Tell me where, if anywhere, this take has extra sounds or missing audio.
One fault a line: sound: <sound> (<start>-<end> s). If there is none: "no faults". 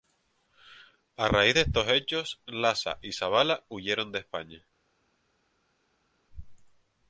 no faults